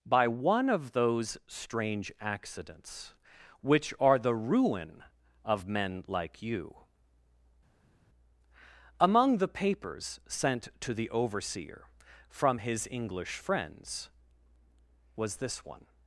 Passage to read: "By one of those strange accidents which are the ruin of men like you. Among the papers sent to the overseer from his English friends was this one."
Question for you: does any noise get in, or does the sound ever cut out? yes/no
no